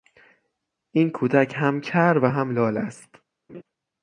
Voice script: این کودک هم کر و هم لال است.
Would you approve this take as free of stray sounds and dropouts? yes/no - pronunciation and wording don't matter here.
no